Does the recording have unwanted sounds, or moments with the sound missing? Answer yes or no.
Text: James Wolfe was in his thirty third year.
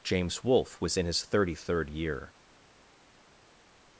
no